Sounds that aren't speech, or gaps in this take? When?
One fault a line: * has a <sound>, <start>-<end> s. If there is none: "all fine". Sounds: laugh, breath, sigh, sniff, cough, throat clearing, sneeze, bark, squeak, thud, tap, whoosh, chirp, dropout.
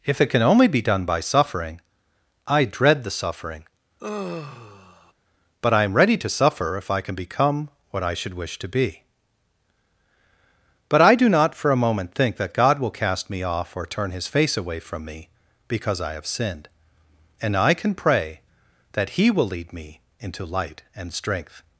* has a sigh, 4.0-5.1 s